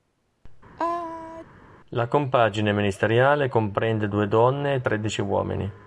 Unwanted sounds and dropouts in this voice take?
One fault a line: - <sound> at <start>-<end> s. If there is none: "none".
- sneeze at 0.8-1.5 s